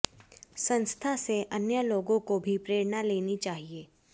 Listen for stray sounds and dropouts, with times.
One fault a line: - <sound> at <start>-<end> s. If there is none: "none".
none